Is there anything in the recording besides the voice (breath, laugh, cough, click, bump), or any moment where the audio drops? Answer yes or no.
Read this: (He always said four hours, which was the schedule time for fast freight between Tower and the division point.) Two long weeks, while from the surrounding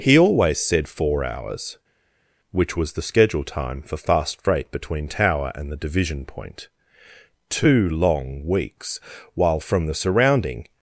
no